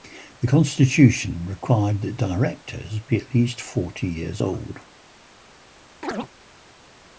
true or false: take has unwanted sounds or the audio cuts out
true